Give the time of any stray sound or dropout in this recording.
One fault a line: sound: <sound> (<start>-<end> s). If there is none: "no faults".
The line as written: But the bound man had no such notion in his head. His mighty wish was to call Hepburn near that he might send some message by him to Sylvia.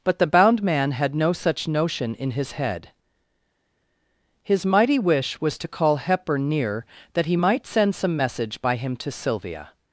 no faults